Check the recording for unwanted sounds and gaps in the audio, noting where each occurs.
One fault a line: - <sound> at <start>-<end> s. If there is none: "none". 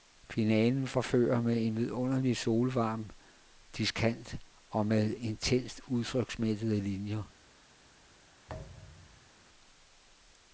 - thud at 8.5-9.3 s